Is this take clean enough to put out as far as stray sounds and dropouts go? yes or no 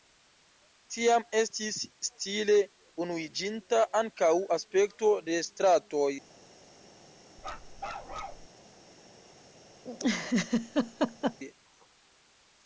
no